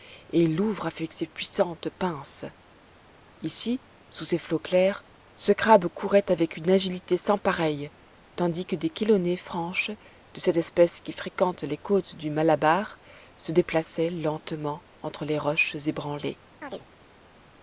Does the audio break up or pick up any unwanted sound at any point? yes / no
yes